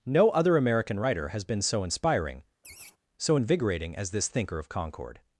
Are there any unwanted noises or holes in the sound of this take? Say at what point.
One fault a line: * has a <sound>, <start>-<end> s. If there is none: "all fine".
* has a laugh, 2.6-3.0 s